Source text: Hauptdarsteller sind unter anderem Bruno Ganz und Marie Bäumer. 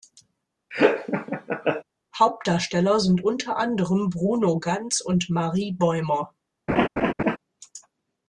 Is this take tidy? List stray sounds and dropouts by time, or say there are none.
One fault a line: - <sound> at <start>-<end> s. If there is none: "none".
- laugh at 0.7-1.8 s
- laugh at 6.7-7.4 s